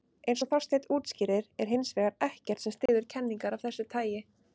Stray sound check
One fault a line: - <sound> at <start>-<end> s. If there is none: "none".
- dropout at 2.9-2.9 s